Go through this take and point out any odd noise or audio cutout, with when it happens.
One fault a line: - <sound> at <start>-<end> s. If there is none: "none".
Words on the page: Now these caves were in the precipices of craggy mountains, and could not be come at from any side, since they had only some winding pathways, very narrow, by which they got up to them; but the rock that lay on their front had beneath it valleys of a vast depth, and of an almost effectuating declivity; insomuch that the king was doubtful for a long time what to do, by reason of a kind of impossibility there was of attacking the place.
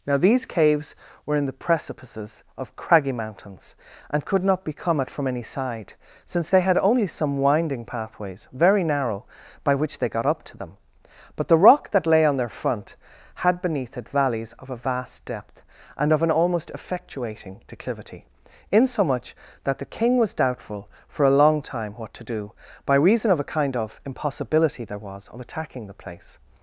none